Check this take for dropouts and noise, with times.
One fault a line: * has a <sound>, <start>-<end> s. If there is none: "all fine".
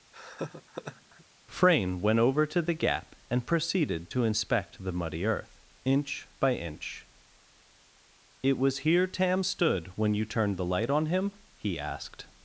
* has a laugh, 0.1-1.3 s